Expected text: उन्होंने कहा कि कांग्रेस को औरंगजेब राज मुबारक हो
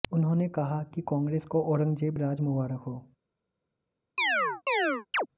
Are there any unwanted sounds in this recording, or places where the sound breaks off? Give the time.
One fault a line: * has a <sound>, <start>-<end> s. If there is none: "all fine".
* has a chirp, 4.2-5.3 s